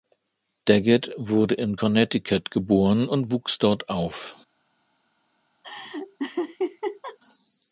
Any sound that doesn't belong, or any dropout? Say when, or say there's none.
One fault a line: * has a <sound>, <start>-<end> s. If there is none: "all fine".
* has a laugh, 5.6-7.2 s